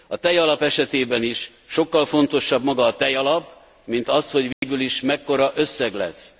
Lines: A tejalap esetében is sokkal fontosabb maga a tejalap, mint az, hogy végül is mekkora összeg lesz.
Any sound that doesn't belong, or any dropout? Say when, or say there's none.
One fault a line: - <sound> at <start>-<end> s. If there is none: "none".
- dropout at 4.5-4.6 s